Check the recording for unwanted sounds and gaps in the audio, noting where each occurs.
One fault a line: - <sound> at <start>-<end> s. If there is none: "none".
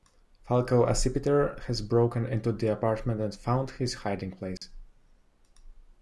- dropout at 4.6-4.6 s